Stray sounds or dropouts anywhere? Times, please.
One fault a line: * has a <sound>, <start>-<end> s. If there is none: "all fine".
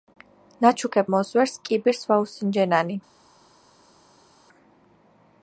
all fine